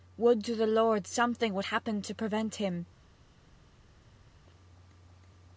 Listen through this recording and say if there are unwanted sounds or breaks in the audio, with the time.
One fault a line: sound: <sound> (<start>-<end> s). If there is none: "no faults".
no faults